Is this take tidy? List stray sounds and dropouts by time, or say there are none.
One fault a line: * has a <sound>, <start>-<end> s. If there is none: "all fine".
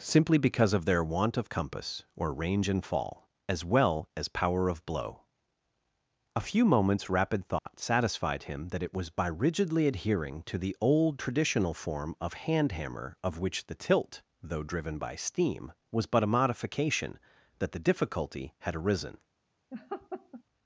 * has a dropout, 7.6-7.7 s
* has a laugh, 19.7-20.4 s